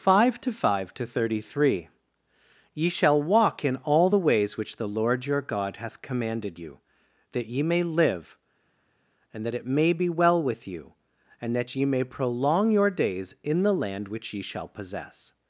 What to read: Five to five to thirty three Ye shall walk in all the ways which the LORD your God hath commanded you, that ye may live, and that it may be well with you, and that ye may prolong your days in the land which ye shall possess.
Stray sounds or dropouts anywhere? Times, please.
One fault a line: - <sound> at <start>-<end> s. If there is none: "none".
none